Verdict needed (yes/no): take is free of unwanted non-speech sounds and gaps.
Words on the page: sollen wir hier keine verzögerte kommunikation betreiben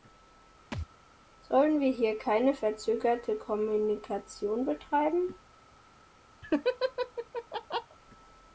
no